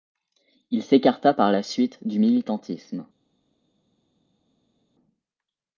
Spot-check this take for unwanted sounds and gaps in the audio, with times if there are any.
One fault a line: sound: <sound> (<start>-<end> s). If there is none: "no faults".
no faults